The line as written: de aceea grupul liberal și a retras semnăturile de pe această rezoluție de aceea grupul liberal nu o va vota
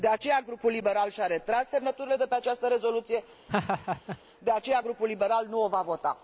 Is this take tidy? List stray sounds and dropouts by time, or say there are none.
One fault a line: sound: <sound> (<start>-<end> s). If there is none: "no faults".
sound: laugh (3.5-4.2 s)